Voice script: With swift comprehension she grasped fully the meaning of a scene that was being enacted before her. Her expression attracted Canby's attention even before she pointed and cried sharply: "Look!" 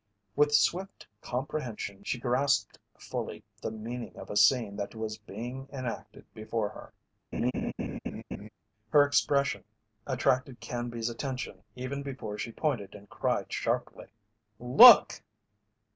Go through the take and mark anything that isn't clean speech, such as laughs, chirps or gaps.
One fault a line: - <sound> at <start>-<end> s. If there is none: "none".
- laugh at 7.3-8.5 s